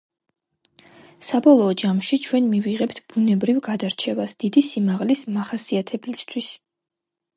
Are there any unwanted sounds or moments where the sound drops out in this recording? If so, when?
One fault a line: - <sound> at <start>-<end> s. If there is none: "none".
none